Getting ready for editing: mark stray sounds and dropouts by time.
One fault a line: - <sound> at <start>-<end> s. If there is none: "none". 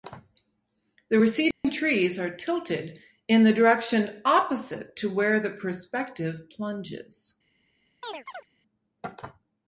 - dropout at 1.5-1.6 s
- chirp at 8.0-8.5 s